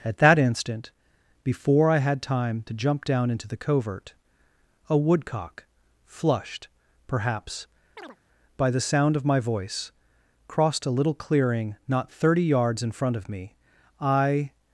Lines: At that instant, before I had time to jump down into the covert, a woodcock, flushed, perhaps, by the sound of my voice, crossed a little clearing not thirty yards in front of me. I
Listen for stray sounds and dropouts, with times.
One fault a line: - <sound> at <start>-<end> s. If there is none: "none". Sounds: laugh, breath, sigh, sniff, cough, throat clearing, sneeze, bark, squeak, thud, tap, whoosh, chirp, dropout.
- chirp at 8.0-8.2 s